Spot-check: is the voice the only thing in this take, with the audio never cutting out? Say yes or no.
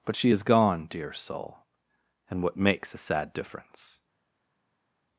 yes